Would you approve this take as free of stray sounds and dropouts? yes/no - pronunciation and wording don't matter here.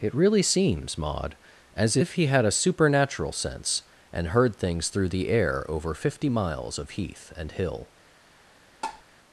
no